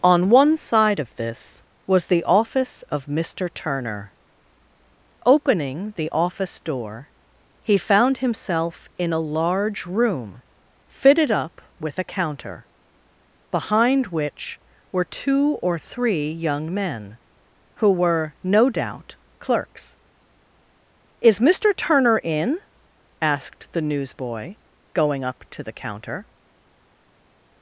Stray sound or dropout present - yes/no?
no